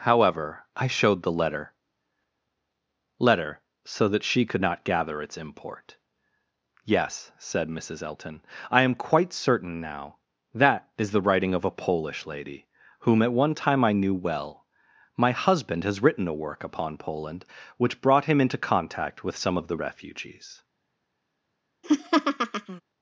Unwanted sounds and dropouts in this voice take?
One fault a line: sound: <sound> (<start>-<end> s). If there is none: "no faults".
sound: laugh (21.8-22.8 s)